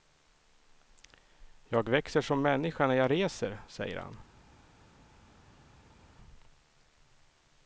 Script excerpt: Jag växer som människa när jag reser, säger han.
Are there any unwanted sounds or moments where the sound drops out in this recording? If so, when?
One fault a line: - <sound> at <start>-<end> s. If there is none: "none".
none